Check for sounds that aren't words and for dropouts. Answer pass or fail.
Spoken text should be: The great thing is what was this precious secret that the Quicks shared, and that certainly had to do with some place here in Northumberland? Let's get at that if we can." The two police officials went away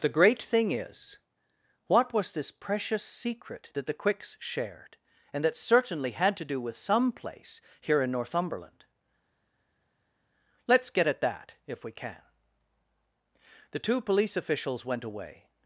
pass